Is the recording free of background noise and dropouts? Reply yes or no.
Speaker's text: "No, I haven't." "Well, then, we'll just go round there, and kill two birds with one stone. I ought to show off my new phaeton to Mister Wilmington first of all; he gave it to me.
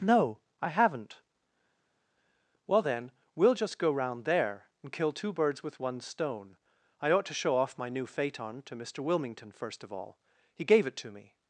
yes